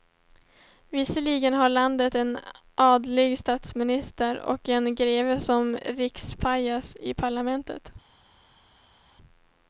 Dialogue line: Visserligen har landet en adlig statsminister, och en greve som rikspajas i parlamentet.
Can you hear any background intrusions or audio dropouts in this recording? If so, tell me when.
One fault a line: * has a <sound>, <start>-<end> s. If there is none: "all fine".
all fine